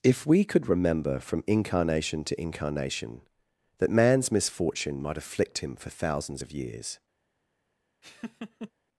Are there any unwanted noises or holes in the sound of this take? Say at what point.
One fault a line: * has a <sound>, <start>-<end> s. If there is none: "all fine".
* has a laugh, 8.0-8.7 s